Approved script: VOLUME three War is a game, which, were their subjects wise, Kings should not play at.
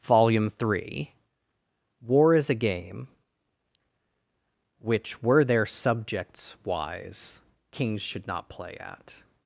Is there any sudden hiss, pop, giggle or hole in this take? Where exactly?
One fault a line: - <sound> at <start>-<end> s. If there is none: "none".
none